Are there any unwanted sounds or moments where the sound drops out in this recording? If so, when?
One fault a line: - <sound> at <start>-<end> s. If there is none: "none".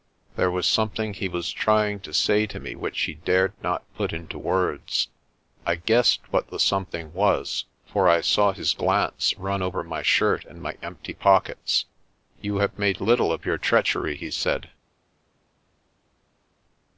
none